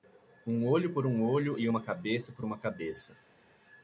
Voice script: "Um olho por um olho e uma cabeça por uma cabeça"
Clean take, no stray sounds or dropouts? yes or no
yes